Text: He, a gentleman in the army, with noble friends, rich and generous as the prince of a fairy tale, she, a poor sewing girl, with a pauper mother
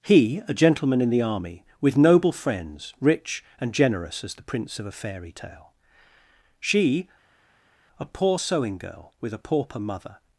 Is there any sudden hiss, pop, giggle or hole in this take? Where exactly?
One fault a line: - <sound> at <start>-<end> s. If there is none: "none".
none